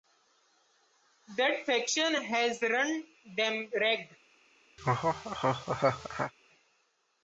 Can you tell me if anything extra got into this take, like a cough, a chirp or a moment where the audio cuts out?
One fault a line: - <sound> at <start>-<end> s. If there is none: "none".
- laugh at 4.8-6.3 s